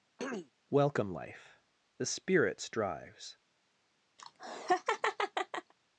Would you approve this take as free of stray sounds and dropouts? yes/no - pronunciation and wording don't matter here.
no